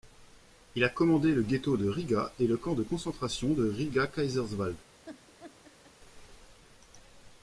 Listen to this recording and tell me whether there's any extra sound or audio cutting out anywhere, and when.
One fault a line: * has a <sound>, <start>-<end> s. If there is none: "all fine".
* has a laugh, 5.0-5.9 s